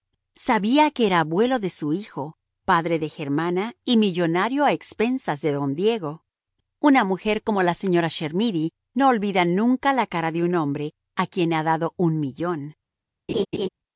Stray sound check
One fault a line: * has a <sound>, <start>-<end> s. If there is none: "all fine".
* has a laugh, 13.3-13.7 s